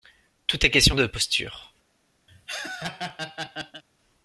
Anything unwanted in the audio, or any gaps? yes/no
yes